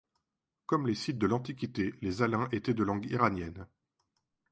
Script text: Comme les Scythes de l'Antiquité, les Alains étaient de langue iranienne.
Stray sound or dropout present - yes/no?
no